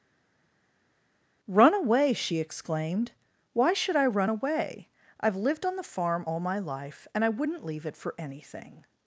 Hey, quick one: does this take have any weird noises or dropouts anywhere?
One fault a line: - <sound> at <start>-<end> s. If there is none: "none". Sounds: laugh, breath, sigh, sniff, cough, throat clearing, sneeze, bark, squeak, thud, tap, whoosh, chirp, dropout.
none